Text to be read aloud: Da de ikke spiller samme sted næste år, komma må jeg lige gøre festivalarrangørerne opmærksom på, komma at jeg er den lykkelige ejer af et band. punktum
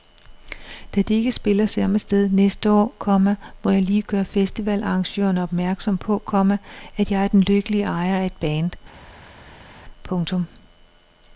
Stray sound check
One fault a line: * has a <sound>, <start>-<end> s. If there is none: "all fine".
all fine